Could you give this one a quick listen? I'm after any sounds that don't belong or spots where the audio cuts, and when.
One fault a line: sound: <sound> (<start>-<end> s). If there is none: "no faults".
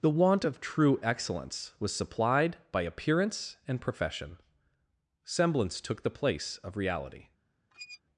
sound: squeak (7.7-8.0 s)